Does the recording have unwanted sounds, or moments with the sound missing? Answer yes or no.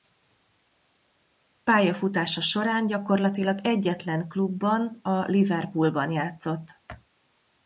no